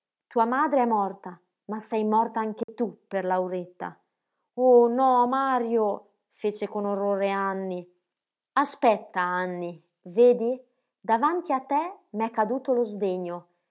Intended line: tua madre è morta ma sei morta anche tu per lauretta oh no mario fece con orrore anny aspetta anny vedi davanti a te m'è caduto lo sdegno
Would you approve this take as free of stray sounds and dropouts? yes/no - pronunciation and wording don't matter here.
no